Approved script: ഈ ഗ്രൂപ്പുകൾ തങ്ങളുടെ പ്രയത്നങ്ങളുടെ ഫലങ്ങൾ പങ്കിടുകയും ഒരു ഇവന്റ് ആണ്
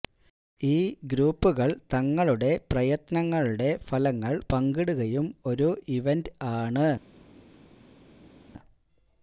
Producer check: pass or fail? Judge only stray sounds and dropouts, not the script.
pass